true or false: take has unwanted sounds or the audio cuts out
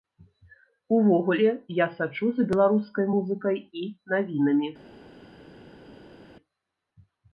false